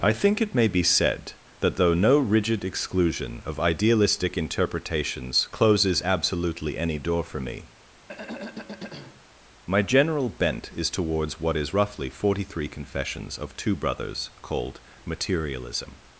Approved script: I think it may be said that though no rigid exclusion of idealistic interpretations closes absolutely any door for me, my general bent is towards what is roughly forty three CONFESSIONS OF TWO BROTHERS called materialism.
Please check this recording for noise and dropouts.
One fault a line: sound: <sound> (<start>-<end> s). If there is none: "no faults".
sound: throat clearing (8.1-9.3 s)